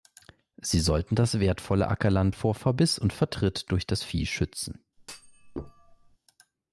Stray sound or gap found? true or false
true